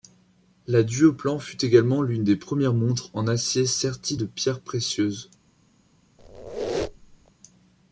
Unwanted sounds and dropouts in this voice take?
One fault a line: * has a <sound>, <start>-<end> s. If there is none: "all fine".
* has a squeak, 6.2-7.3 s